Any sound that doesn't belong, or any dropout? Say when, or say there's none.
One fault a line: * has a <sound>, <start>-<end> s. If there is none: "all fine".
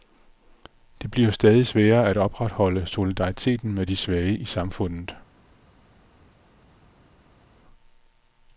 all fine